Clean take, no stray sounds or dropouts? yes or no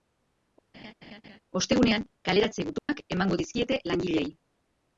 no